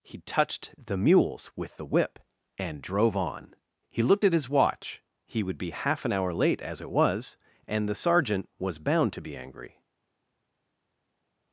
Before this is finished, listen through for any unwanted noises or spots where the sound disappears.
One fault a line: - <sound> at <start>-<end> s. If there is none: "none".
none